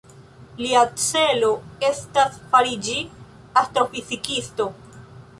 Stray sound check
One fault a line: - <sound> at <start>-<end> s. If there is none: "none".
none